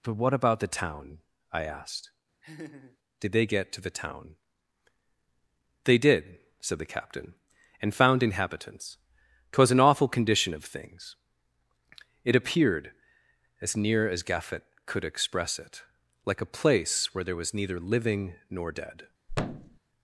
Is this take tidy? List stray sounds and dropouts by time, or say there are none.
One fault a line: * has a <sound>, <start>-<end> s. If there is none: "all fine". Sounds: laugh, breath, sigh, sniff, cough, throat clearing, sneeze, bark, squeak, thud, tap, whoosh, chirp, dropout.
* has a laugh, 2.4-3.0 s
* has a thud, 19.3-19.8 s